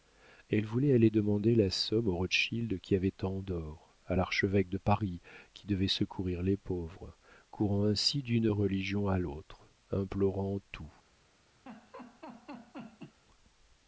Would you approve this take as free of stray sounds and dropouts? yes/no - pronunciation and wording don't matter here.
no